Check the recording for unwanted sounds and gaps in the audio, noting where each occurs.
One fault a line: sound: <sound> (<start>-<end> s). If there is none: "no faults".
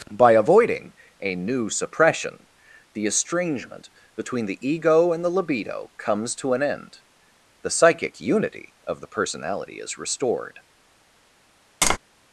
sound: tap (11.8-12.0 s)